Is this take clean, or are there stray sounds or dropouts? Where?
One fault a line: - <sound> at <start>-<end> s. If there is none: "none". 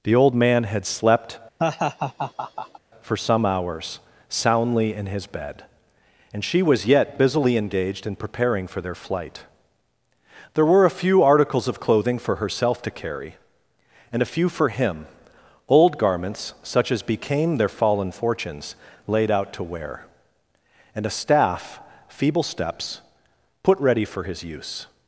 - laugh at 1.6-2.8 s